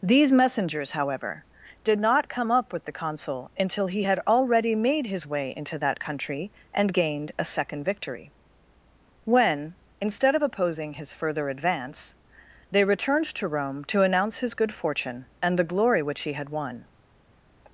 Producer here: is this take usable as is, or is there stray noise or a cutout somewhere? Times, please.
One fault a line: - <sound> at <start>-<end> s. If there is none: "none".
none